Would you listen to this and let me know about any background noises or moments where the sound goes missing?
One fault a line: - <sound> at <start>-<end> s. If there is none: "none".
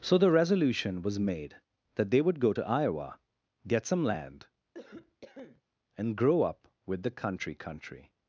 - cough at 4.7-5.6 s